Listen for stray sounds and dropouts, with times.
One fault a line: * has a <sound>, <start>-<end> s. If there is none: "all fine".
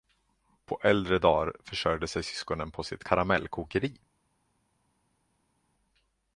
all fine